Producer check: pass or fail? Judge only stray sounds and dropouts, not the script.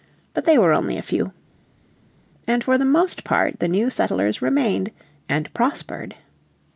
pass